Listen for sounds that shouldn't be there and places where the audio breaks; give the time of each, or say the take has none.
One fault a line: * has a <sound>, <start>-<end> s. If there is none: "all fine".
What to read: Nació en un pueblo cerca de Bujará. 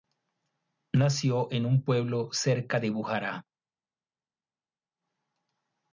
all fine